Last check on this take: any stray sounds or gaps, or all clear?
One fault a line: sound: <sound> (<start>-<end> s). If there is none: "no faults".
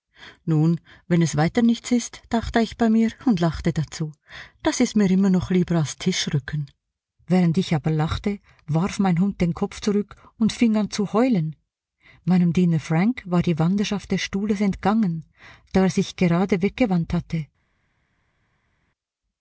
no faults